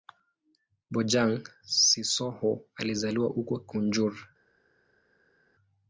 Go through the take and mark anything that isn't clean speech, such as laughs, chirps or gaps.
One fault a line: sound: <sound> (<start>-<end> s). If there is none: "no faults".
no faults